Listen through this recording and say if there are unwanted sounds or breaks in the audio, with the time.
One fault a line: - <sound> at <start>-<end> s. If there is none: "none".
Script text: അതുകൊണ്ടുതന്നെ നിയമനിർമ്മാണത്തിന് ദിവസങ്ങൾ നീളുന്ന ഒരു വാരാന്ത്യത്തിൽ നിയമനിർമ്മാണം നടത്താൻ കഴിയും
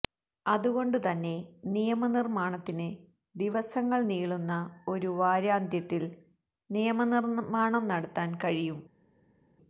none